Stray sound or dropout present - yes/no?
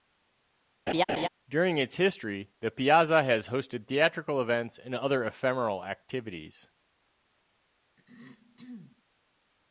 yes